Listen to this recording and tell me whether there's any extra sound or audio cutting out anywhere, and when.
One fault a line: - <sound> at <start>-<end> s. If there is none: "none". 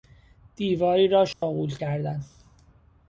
- dropout at 1.3-1.4 s